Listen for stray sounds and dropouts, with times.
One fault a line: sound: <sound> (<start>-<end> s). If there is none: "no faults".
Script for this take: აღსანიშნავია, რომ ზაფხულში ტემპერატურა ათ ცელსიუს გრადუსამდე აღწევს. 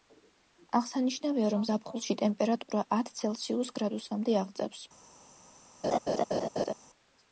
sound: laugh (5.8-6.7 s)